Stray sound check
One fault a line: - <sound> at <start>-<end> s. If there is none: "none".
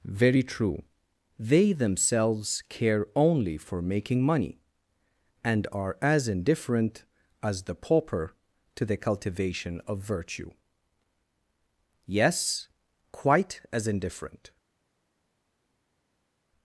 none